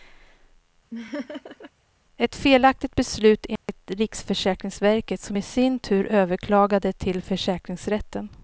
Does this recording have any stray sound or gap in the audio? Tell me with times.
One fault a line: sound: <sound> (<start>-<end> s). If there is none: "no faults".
sound: laugh (0.9-1.7 s)
sound: dropout (3.6-3.7 s)